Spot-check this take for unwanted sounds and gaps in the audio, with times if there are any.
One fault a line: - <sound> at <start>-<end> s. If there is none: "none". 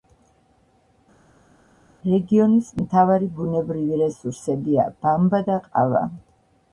none